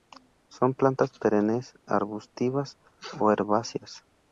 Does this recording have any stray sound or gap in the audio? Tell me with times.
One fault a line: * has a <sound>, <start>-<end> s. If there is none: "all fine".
all fine